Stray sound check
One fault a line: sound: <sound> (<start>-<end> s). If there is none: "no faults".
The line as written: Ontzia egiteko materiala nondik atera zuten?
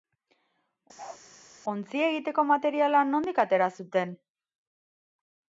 sound: bark (1.0-1.2 s)